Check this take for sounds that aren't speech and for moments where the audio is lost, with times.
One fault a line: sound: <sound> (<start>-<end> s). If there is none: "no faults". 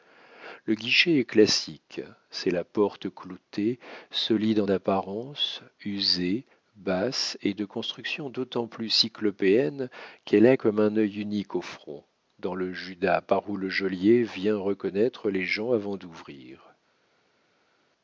no faults